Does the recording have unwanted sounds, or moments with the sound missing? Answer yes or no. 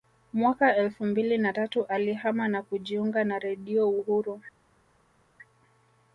no